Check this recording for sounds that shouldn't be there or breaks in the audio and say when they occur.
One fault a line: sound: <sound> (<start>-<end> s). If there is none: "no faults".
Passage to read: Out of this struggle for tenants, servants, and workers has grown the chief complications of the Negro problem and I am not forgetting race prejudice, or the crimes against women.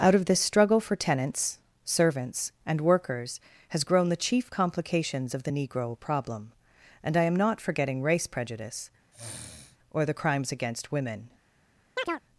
sound: sniff (9.1-9.8 s)
sound: chirp (12.0-12.2 s)